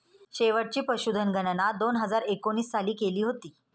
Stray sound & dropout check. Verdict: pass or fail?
pass